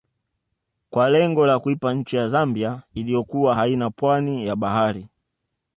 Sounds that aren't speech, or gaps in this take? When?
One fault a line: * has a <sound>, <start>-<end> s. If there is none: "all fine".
all fine